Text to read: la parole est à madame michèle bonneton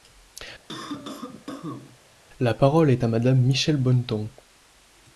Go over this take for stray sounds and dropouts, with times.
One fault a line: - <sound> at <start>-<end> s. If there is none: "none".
- cough at 0.7-2.0 s